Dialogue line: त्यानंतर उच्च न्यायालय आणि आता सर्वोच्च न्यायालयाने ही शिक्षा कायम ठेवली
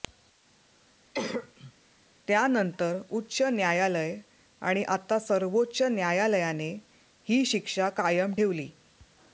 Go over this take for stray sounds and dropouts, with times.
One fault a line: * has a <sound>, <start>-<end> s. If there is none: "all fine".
* has a cough, 1.1-1.7 s